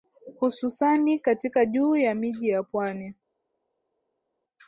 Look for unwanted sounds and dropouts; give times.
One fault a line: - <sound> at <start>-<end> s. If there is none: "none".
none